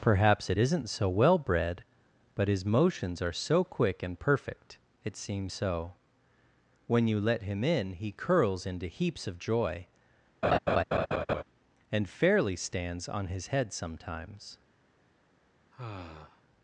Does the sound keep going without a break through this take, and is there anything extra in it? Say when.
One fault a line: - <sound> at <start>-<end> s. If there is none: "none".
- laugh at 10.4-11.4 s
- sigh at 15.7-16.4 s